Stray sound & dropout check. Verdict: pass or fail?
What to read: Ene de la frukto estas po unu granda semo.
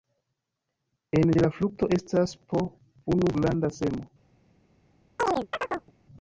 fail